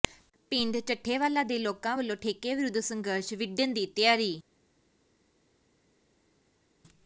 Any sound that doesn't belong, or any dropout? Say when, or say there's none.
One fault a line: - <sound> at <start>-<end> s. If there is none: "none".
none